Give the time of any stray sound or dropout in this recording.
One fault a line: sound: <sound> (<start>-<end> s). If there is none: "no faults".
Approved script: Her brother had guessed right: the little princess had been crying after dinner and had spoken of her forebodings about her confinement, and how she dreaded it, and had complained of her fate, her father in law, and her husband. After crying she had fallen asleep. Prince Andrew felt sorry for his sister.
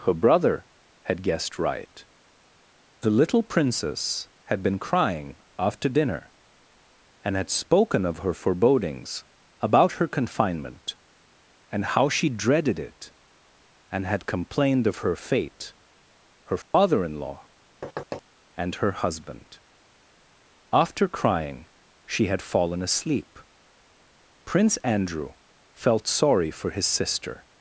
sound: dropout (16.6-16.7 s)
sound: thud (17.8-18.2 s)